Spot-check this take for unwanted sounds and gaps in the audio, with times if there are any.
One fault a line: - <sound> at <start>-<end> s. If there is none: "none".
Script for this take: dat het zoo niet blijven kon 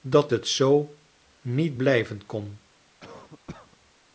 - cough at 3.0-3.8 s